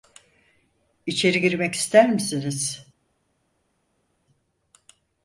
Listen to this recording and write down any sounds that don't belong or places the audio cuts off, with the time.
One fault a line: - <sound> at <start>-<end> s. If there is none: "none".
none